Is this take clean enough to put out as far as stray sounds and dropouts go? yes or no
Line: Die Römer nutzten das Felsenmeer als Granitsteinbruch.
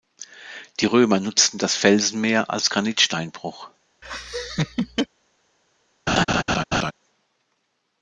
no